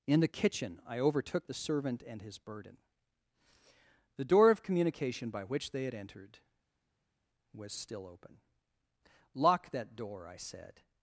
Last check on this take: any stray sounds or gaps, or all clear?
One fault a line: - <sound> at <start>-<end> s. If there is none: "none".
none